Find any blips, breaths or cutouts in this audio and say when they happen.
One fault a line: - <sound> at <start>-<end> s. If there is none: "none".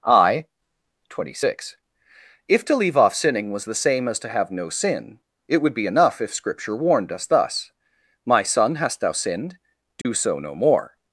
- dropout at 10.0-10.1 s